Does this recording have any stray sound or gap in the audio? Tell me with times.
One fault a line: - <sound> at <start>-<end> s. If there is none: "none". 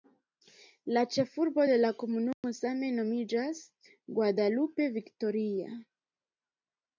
- dropout at 2.3-2.4 s